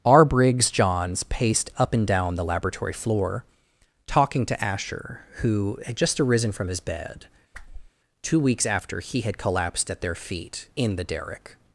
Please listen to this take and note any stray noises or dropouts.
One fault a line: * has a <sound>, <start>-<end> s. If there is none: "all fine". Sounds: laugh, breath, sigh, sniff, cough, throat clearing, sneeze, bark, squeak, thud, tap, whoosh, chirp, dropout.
* has a whoosh, 7.5-7.9 s